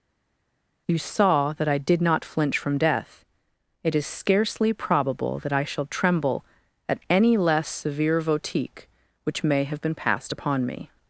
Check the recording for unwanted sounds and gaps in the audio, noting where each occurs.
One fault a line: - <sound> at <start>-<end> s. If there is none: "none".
none